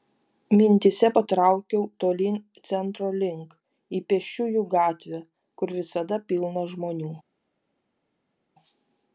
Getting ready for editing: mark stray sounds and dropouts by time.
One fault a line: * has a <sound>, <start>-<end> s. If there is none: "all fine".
all fine